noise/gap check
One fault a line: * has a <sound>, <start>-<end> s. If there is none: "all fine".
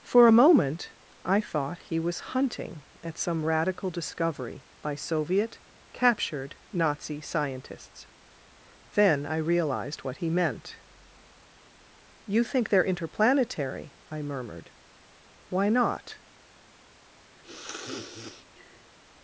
* has a sniff, 17.4-18.9 s